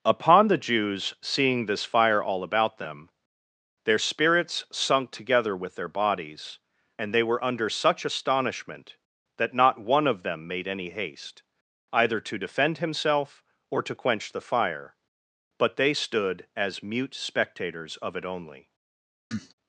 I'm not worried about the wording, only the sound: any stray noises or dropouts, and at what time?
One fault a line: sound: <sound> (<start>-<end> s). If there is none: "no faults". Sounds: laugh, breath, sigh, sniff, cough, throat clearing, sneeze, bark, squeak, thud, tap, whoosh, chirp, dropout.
sound: cough (19.3-19.5 s)